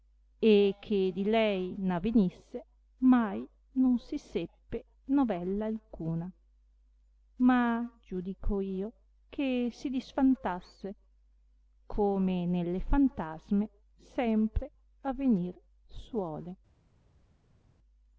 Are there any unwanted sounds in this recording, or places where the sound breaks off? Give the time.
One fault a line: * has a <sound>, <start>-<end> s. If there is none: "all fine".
all fine